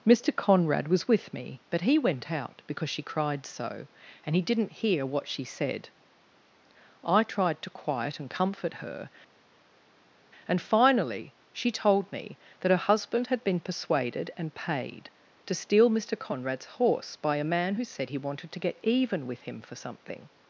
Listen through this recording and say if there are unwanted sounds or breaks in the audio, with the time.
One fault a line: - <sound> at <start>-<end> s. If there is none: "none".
none